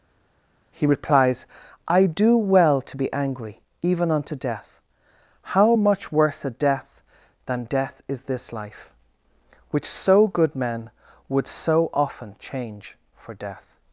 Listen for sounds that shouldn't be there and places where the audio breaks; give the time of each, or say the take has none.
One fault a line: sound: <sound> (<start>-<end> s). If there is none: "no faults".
no faults